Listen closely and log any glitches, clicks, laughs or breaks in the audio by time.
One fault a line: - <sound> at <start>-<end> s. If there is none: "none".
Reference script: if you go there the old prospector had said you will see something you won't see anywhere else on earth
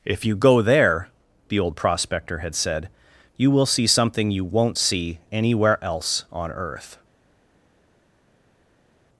none